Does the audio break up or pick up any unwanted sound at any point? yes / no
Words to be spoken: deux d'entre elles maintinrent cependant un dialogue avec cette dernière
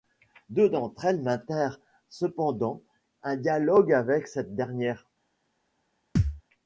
yes